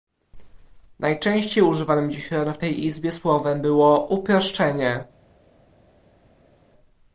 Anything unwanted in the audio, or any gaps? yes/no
no